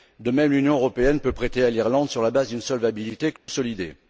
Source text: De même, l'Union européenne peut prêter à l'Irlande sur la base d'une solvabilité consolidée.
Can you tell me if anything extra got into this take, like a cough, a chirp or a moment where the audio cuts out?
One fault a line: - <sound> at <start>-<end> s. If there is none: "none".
- dropout at 3.4-3.5 s